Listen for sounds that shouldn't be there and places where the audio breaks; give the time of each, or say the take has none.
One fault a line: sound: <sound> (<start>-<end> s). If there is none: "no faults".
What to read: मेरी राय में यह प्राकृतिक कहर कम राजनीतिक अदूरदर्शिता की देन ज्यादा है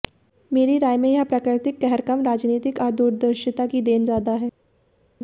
no faults